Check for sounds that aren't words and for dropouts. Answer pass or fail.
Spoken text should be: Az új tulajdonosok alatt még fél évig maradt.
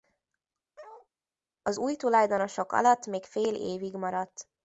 fail